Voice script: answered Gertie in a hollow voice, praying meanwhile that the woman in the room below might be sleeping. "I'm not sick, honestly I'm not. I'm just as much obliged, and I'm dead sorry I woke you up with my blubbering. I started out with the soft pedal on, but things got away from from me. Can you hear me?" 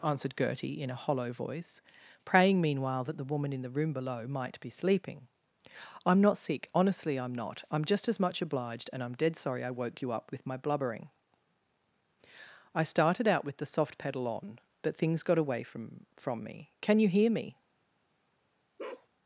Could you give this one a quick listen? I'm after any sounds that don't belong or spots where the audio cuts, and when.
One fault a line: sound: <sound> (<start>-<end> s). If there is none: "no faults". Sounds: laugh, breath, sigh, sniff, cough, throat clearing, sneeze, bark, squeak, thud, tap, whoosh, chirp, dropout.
sound: bark (18.8-19.1 s)